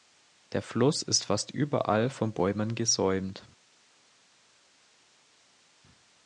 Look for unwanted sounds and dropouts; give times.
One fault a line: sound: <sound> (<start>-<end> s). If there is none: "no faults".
no faults